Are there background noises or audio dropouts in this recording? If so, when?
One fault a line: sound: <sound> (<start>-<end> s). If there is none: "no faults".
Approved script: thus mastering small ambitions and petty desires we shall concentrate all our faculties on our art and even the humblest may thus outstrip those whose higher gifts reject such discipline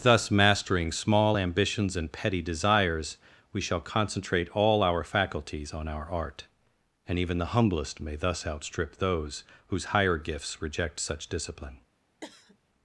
sound: cough (12.2-12.6 s)